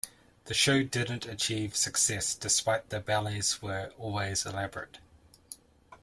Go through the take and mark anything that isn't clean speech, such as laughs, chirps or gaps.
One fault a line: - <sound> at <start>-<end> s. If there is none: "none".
none